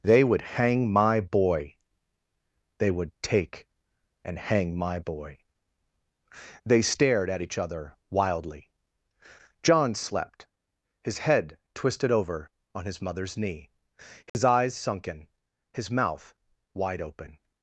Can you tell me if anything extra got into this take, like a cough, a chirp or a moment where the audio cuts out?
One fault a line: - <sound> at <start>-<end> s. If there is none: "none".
- dropout at 14.3-14.3 s